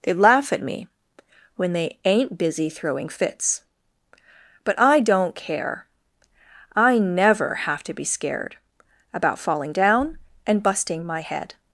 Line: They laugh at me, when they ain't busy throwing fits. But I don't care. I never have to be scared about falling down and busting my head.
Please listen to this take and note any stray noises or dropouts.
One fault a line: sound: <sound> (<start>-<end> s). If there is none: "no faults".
no faults